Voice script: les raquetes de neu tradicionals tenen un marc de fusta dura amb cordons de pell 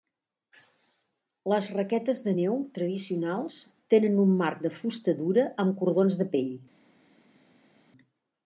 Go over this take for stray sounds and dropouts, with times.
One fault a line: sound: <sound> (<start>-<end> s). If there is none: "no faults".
no faults